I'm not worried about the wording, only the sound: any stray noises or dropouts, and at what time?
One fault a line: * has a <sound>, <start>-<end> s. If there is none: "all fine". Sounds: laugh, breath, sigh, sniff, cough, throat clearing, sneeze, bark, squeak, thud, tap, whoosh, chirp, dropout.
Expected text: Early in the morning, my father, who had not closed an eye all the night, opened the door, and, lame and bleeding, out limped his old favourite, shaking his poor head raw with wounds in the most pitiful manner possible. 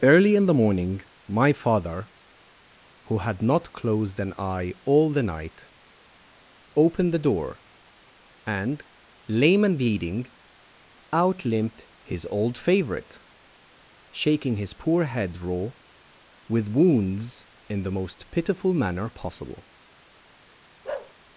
* has a bark, 20.8-21.1 s